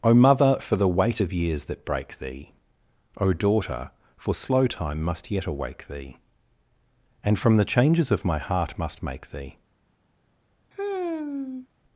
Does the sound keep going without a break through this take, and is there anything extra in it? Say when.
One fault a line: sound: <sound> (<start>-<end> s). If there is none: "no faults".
sound: sigh (10.7-11.7 s)